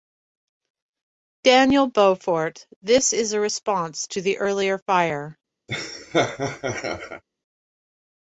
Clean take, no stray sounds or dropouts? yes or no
no